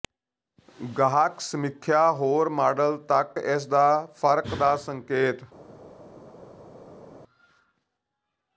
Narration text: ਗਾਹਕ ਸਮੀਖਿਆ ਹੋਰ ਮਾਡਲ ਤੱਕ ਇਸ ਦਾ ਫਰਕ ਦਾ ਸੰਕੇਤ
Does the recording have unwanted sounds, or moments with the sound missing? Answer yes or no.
no